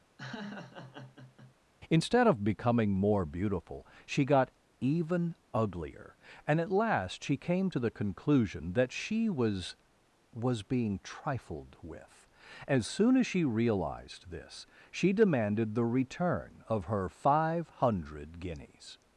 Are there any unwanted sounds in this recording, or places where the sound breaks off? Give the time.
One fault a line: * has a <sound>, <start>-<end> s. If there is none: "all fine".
* has a laugh, 0.2-1.6 s